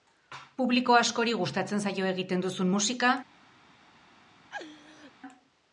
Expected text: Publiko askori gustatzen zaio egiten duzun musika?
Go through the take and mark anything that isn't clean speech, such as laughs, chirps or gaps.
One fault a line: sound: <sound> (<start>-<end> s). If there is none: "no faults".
sound: laugh (4.5-5.1 s)